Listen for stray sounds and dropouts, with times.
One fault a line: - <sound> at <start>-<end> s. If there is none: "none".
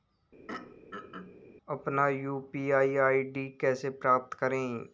- throat clearing at 0.5-1.4 s